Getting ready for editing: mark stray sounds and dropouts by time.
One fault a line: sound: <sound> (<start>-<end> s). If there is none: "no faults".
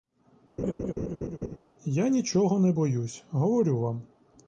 sound: laugh (0.6-1.6 s)